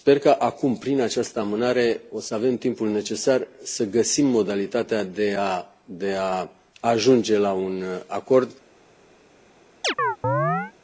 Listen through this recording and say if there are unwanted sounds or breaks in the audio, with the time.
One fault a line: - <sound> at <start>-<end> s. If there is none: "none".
- chirp at 9.8-10.7 s